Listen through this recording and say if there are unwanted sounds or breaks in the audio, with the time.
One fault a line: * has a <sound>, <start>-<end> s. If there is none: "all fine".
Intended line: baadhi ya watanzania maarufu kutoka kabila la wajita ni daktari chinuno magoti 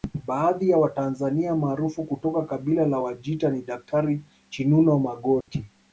* has a dropout, 5.4-5.5 s